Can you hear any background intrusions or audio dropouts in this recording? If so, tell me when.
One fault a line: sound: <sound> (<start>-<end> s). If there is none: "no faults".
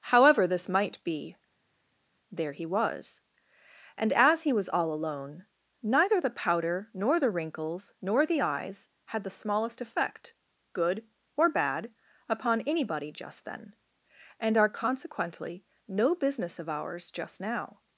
no faults